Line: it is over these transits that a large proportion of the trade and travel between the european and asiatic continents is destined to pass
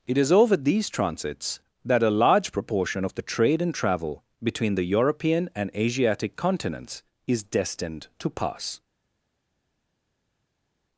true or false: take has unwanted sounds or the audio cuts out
false